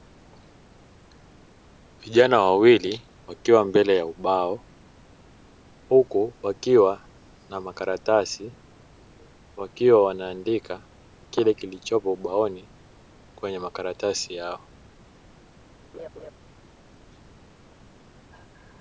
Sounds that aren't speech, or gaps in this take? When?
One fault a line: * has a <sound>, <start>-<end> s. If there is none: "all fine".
* has a laugh, 15.9-16.3 s